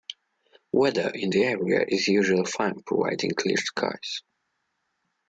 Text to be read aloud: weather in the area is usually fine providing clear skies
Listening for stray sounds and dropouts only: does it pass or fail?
pass